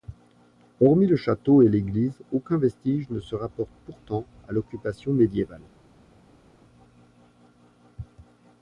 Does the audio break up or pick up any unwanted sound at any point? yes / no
no